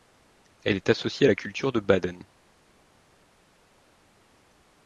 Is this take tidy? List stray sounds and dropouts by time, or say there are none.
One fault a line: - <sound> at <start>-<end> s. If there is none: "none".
none